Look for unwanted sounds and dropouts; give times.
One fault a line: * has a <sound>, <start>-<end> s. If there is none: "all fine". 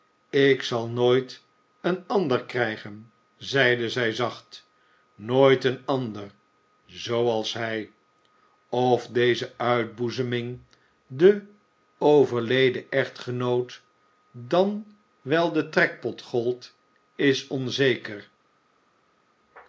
all fine